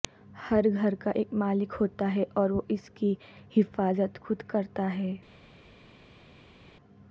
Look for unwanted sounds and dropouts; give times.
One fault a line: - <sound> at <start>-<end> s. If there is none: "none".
none